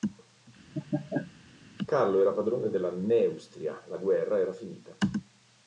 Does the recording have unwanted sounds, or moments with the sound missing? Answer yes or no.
yes